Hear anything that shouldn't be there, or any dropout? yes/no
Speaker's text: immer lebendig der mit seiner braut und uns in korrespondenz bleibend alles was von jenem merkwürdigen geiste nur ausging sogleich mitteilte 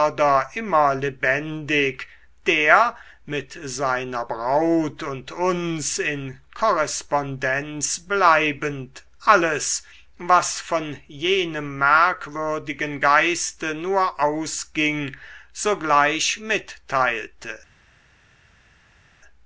no